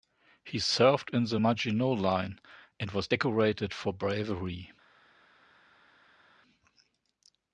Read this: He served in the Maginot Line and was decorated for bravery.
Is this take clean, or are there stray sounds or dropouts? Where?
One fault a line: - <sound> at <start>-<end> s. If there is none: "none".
none